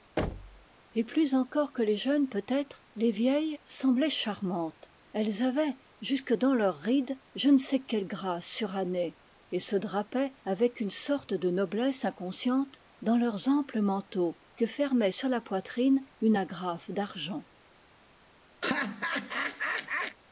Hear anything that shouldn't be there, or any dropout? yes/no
yes